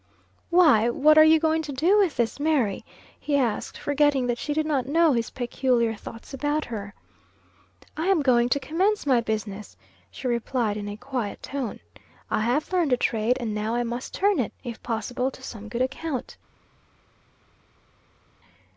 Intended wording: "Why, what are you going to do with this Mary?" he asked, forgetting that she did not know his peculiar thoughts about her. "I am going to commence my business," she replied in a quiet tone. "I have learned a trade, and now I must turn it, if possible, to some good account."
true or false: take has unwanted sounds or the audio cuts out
false